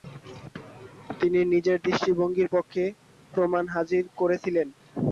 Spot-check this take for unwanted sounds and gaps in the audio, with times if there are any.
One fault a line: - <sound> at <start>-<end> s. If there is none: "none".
none